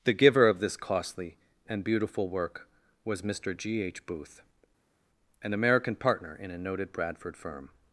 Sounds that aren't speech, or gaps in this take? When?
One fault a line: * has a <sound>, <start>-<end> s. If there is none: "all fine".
all fine